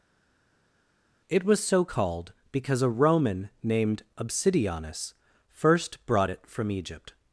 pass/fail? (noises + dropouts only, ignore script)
pass